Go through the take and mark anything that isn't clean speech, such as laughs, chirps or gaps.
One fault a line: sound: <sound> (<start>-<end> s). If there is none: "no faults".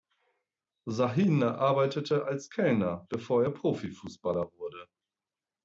no faults